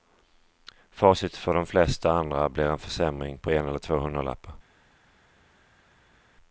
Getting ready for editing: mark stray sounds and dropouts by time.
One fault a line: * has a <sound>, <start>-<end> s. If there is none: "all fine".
all fine